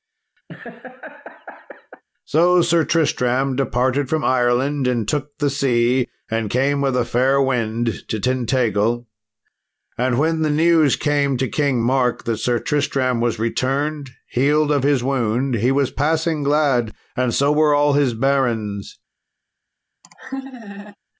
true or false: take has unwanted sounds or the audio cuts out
true